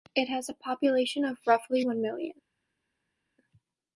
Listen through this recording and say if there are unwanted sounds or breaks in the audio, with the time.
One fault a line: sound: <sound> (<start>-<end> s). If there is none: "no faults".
no faults